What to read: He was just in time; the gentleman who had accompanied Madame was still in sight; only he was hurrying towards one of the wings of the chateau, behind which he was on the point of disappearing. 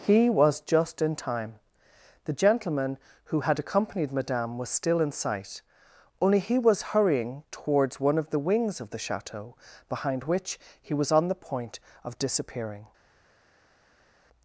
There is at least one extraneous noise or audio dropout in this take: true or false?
false